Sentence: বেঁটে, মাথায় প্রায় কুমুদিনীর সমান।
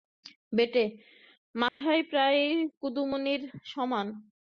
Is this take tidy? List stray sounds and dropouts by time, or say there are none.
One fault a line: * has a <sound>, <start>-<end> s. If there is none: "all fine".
* has a dropout, 1.7-1.8 s